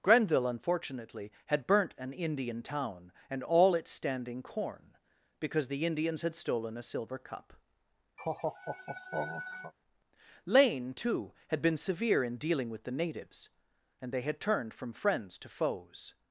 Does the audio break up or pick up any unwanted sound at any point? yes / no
yes